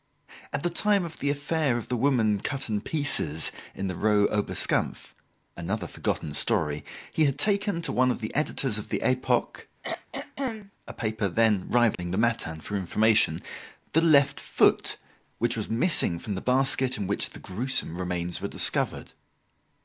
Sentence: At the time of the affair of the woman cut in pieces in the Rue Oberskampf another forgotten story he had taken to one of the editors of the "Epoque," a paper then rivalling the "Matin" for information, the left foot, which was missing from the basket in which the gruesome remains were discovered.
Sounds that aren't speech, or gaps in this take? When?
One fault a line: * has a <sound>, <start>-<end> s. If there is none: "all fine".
* has a throat clearing, 9.8-10.7 s
* has a dropout, 11.9-12.0 s